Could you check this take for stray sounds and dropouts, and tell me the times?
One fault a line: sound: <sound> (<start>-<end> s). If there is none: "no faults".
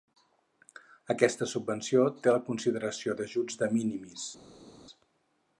no faults